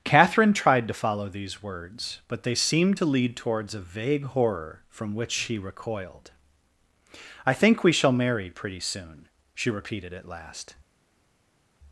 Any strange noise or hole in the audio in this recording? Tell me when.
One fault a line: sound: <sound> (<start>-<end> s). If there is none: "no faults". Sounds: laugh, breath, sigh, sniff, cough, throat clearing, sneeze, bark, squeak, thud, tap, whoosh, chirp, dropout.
no faults